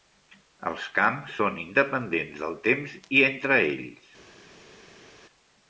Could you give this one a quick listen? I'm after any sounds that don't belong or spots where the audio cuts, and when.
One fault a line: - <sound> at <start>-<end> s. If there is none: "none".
none